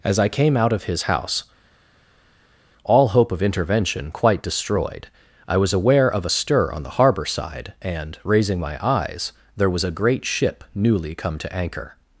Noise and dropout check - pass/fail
pass